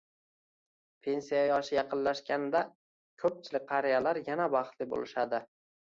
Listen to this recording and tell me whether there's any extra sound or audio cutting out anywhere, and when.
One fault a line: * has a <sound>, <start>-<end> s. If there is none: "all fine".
all fine